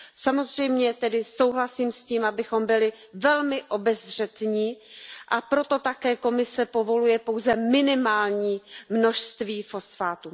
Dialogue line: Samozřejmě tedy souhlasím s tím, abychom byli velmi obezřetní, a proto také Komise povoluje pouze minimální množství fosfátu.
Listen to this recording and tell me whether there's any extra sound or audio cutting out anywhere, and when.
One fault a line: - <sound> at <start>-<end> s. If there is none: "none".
none